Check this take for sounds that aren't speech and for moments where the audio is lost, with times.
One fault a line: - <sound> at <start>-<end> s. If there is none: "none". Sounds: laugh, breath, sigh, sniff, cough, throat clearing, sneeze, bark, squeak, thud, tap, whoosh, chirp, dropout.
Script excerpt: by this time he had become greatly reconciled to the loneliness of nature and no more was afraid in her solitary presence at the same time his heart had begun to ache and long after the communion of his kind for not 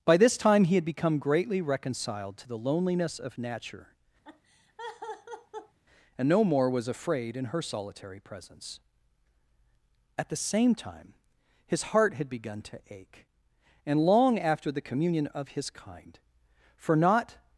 - laugh at 4.2-5.8 s